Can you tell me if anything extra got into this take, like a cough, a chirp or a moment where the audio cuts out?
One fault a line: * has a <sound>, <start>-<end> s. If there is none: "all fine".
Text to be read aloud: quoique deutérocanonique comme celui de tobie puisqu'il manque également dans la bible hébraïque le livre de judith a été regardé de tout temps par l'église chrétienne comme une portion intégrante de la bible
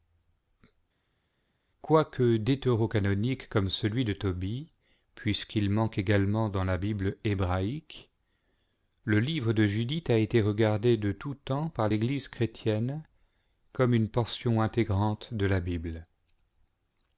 all fine